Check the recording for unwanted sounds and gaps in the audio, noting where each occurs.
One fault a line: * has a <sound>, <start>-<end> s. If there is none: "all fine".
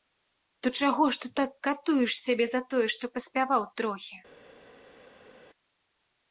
all fine